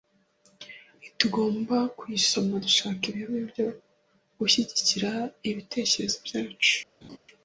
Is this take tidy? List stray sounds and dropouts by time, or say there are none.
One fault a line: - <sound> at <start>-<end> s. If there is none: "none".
- laugh at 7.0-7.2 s